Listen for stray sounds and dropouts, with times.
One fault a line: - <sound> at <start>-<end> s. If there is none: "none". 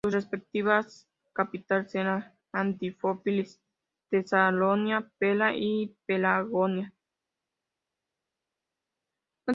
none